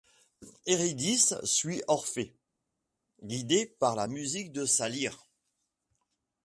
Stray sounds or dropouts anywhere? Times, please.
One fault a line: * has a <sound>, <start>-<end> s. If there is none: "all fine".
all fine